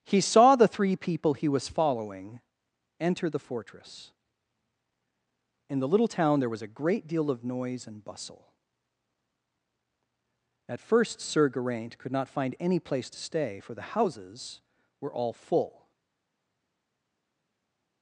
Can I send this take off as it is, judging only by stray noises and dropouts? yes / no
yes